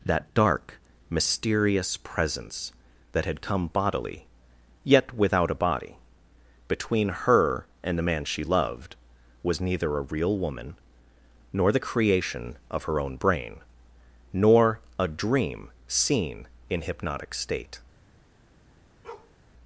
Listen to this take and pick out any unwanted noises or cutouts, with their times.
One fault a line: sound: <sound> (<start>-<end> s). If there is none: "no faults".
sound: bark (19.0-19.3 s)